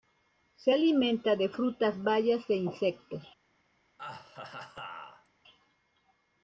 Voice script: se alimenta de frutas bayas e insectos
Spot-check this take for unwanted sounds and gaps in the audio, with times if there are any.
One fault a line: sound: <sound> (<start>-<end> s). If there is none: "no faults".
sound: laugh (4.0-5.3 s)